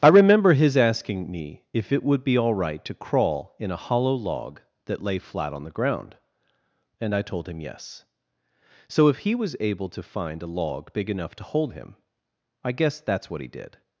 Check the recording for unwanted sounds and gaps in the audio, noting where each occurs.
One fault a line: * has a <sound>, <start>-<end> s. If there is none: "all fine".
all fine